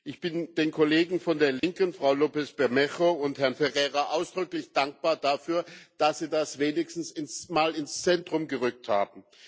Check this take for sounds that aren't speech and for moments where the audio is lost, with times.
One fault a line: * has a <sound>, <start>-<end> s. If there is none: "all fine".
* has a dropout, 1.6-1.6 s